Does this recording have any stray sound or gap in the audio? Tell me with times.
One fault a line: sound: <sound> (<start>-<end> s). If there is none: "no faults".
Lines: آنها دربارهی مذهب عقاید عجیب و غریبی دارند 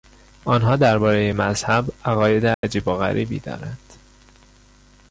sound: dropout (2.5-2.6 s)